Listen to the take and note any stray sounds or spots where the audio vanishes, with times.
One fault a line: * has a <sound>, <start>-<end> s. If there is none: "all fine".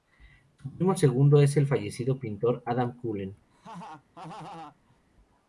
* has a laugh, 3.5-5.0 s